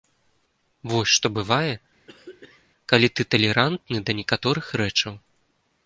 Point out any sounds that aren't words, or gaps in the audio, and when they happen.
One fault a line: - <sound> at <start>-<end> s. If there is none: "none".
- throat clearing at 2.1-2.7 s